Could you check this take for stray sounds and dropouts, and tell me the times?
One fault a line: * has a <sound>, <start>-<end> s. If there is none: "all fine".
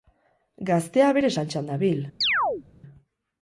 * has a chirp, 2.2-2.6 s